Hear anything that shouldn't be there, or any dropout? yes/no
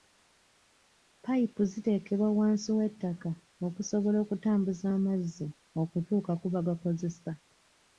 no